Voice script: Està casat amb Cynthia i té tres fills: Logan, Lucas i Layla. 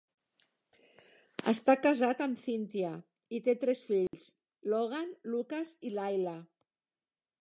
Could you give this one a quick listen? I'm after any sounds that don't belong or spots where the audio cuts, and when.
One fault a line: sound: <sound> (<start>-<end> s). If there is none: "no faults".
sound: dropout (4.1-4.1 s)